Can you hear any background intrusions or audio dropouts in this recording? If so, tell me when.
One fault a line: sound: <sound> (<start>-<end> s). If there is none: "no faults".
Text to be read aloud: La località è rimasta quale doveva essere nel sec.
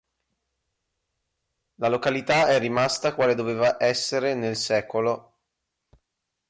no faults